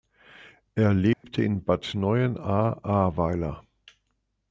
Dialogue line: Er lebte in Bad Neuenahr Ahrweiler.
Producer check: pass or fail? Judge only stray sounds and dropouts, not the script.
fail